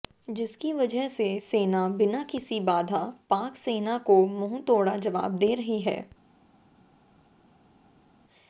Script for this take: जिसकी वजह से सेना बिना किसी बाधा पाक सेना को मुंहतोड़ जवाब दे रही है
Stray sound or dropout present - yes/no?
no